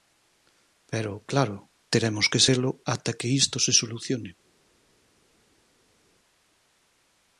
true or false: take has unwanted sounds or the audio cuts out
false